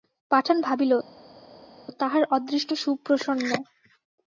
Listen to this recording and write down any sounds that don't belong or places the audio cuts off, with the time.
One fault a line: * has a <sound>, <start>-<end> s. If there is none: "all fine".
all fine